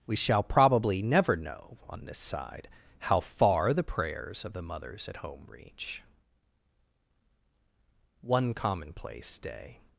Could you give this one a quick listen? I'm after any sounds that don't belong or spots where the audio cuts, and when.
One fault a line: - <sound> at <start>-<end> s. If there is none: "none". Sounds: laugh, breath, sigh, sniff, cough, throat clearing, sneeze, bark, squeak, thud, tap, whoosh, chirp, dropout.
none